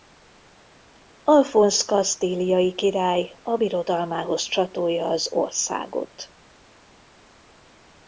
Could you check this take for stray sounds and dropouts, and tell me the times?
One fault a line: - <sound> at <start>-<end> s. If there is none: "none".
none